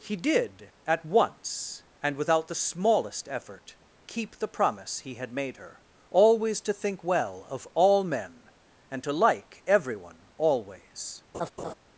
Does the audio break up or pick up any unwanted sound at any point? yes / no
yes